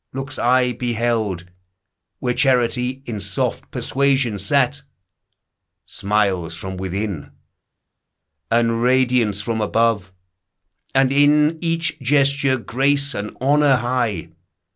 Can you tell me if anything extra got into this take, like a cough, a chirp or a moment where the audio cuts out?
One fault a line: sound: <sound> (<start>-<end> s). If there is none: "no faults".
no faults